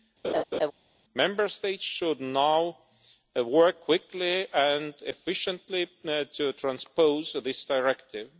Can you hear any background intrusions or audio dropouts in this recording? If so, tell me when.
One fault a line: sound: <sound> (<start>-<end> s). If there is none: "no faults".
sound: laugh (0.2-0.7 s)